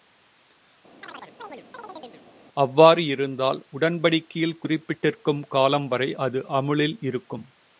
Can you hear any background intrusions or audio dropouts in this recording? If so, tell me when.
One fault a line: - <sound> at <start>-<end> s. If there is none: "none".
- chirp at 1.0-2.2 s